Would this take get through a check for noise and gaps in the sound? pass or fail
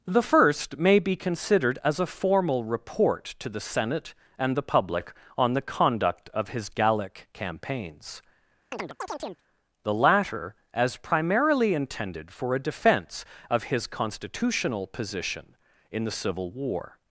fail